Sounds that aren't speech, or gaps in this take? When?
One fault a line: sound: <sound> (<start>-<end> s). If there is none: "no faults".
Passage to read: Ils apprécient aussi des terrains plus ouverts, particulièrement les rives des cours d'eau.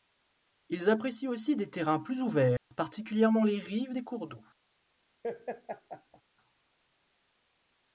sound: dropout (2.6-2.7 s)
sound: laugh (5.2-6.2 s)